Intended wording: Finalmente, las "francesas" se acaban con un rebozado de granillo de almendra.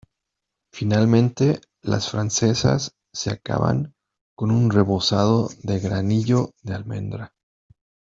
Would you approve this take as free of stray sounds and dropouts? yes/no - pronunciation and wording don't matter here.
yes